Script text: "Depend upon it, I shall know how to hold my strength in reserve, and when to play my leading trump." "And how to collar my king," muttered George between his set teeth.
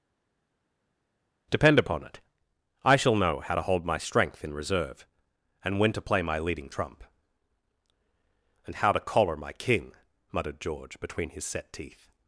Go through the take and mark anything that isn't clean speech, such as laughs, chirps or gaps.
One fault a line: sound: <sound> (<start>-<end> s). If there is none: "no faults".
no faults